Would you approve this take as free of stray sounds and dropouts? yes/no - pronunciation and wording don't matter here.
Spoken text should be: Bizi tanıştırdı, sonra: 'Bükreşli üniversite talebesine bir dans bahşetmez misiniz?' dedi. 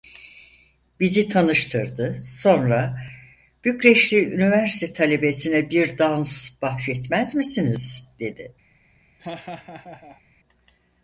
no